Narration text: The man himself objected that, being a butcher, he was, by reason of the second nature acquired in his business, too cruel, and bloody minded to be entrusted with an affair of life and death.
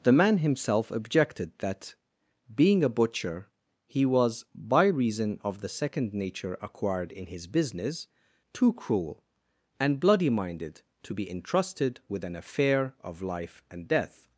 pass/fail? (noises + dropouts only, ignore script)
pass